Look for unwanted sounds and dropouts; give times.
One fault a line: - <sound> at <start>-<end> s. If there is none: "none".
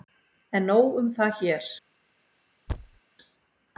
- thud at 2.7-3.0 s